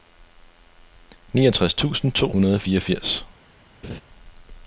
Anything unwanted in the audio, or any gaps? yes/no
yes